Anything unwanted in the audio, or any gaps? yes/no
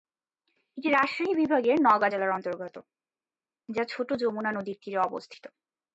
no